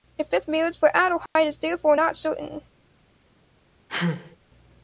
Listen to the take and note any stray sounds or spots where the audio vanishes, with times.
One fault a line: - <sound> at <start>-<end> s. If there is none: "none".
- dropout at 1.3-1.4 s
- sneeze at 3.9-4.4 s